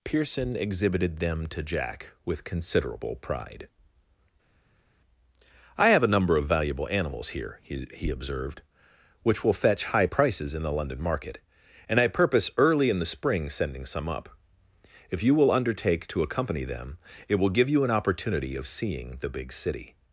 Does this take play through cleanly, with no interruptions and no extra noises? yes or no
yes